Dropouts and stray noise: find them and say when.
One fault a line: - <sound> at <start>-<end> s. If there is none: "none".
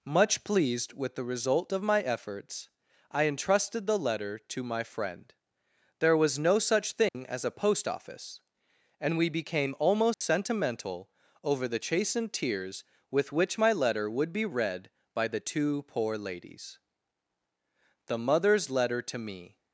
- dropout at 7.1-7.1 s
- dropout at 10.1-10.2 s